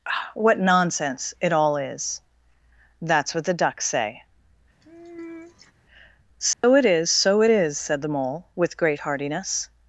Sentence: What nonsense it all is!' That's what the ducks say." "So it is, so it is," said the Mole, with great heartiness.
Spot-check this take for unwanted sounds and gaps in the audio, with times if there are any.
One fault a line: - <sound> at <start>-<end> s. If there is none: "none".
- sigh at 4.8-5.7 s
- dropout at 6.5-6.6 s